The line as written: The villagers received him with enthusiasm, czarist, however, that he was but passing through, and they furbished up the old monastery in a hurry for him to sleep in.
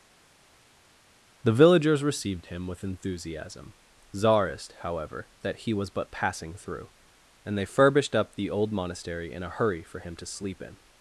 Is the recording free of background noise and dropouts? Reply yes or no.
yes